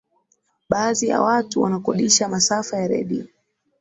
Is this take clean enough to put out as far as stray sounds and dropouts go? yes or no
yes